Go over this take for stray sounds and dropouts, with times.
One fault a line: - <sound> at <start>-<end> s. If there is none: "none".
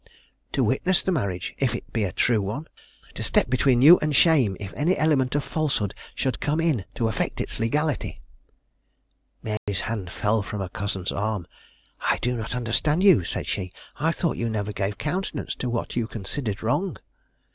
- dropout at 9.6-9.7 s